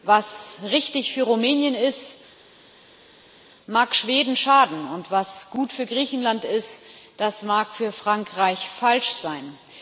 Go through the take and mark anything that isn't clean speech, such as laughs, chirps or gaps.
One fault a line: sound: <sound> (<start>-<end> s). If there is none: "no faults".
no faults